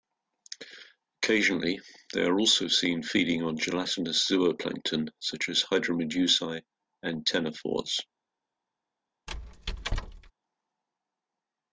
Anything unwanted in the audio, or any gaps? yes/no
yes